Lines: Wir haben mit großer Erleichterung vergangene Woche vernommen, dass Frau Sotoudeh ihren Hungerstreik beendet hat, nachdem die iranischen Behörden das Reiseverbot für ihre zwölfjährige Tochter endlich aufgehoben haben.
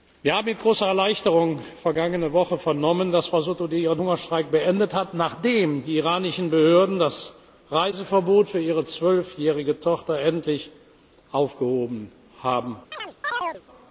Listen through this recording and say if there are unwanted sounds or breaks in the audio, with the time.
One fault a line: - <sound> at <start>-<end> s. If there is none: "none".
- chirp at 12.9-13.6 s